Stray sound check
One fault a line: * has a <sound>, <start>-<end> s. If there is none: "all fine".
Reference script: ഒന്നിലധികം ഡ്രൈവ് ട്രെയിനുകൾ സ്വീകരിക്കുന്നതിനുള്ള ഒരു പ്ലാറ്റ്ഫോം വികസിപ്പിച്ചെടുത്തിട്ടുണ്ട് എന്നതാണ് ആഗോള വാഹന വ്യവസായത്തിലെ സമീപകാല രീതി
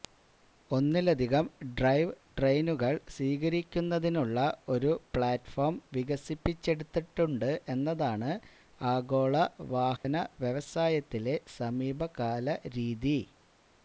* has a dropout, 10.0-10.0 s